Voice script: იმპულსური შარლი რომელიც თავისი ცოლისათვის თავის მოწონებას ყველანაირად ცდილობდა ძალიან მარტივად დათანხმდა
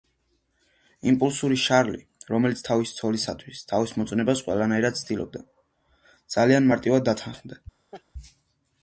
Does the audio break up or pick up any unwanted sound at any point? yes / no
yes